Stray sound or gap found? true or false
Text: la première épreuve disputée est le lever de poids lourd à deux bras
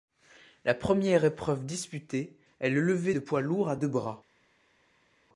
false